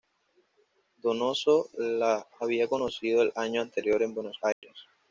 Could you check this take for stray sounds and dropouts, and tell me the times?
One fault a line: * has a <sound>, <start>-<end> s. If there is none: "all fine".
* has a dropout, 4.5-4.6 s